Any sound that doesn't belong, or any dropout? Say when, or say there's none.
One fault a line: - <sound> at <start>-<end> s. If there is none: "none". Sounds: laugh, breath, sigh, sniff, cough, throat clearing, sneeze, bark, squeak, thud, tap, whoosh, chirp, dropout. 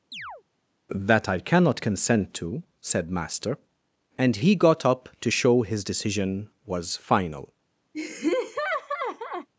- chirp at 0.1-0.4 s
- laugh at 7.9-9.5 s